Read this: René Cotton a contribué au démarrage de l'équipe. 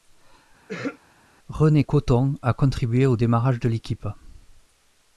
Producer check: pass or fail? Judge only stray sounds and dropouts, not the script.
fail